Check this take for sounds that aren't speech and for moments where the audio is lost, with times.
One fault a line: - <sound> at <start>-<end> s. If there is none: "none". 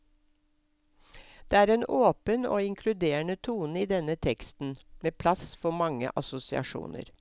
none